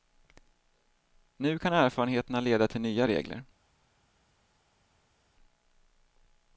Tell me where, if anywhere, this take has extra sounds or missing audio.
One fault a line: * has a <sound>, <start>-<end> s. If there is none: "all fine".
all fine